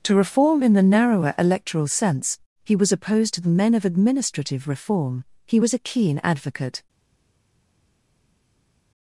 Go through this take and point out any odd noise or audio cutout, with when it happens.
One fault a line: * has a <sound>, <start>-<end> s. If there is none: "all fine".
all fine